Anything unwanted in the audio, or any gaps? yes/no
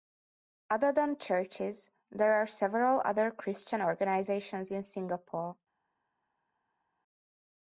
no